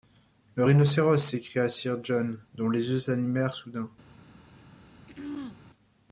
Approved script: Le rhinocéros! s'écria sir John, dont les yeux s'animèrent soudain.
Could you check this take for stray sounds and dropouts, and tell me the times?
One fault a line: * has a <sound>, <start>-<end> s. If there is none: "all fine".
* has a throat clearing, 5.1-5.6 s